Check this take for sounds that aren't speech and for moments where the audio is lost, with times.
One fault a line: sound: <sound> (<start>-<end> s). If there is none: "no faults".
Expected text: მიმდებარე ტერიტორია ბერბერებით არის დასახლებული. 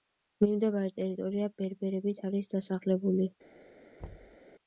sound: thud (4.0-4.4 s)